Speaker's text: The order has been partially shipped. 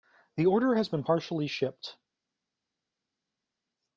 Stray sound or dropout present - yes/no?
no